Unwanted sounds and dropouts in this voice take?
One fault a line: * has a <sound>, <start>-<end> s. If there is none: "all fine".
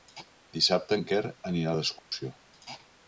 * has a dropout, 2.0-2.1 s